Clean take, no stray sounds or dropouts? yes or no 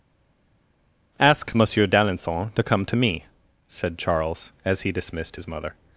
yes